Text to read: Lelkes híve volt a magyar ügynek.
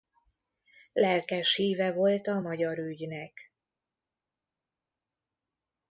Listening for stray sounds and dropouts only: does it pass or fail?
pass